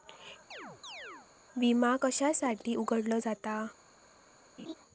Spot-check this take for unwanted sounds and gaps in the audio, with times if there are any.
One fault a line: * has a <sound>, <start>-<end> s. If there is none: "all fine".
* has a chirp, 0.5-1.3 s
* has a laugh, 4.6-4.7 s